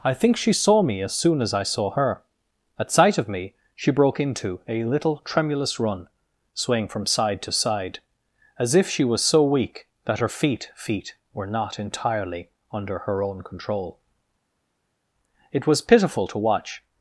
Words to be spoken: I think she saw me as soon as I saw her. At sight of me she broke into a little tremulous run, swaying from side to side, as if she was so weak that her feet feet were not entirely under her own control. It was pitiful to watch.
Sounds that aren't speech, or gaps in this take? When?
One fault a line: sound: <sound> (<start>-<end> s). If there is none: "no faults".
no faults